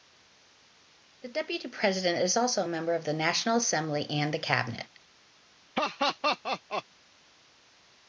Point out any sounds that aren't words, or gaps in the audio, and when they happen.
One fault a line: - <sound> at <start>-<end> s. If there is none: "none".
- laugh at 5.7-6.8 s